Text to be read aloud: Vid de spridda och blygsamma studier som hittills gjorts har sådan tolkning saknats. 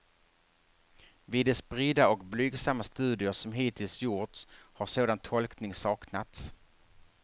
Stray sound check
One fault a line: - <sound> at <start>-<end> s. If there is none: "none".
none